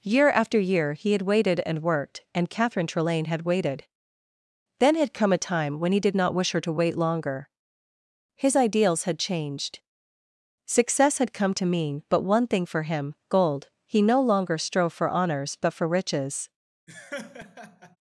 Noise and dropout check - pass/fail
fail